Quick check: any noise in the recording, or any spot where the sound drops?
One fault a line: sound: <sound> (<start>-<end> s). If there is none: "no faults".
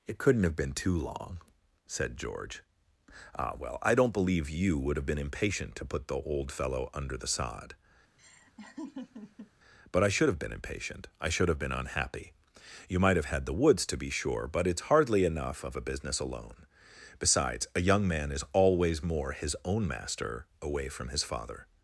sound: laugh (8.2-9.5 s)